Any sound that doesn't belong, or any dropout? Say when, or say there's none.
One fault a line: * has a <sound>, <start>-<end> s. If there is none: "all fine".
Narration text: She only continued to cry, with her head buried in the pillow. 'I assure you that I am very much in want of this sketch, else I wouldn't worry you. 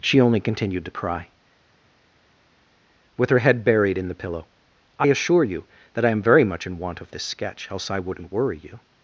all fine